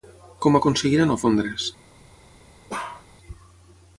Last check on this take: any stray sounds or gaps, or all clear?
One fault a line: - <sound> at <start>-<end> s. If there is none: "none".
- bark at 2.7-3.1 s